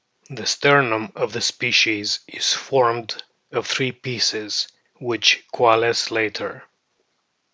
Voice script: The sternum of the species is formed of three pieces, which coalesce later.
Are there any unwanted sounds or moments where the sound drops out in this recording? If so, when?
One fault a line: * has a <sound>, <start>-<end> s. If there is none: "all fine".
all fine